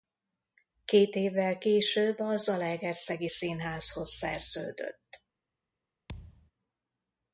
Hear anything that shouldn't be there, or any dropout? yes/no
yes